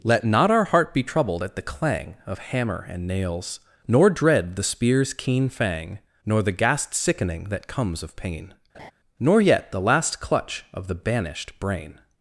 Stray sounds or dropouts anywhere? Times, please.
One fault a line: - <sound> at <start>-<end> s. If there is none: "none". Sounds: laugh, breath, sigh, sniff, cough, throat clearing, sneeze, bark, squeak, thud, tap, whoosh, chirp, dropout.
- laugh at 8.7-8.9 s